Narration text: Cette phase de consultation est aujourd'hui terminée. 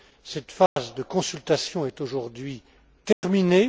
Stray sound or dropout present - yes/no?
yes